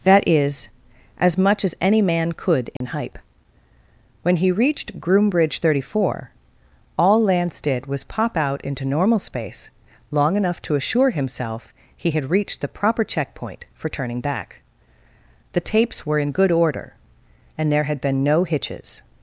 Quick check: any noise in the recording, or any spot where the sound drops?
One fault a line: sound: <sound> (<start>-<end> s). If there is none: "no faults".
sound: dropout (2.8-2.8 s)